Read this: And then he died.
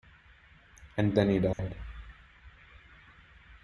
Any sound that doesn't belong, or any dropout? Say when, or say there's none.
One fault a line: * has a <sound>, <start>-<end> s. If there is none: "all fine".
* has a dropout, 1.5-1.6 s